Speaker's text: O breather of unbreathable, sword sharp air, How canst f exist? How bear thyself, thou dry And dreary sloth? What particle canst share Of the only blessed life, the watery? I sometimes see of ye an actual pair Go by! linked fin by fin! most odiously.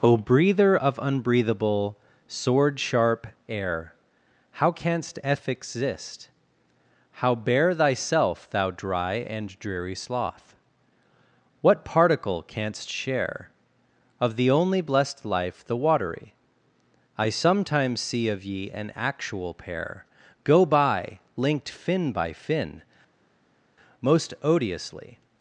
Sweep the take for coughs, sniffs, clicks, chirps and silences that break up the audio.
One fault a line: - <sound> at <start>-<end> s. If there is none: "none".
none